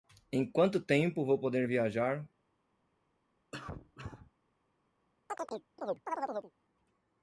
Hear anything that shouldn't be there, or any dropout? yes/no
yes